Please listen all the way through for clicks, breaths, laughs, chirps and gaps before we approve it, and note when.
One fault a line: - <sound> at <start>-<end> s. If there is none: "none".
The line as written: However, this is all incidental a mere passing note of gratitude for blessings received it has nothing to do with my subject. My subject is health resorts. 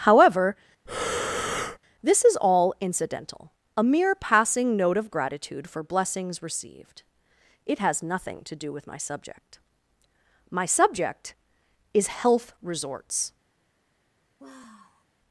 - breath at 0.9-1.8 s
- sigh at 14.4-15.1 s